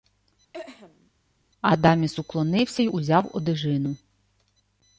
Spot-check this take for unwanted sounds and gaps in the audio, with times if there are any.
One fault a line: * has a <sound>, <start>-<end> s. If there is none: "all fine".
* has a throat clearing, 0.5-1.1 s